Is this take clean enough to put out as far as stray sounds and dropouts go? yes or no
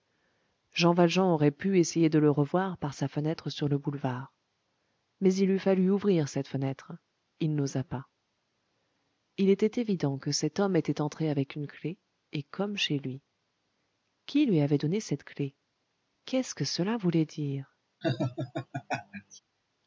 no